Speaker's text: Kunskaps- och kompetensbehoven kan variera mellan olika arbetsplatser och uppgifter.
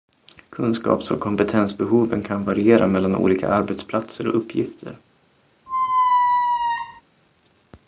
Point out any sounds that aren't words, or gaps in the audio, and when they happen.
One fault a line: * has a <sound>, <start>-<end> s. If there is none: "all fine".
* has a squeak, 5.7-7.0 s